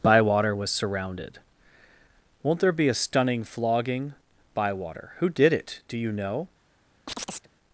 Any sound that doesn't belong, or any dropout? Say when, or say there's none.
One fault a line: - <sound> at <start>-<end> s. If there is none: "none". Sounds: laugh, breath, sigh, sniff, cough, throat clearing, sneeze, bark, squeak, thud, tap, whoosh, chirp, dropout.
- chirp at 7.1-7.5 s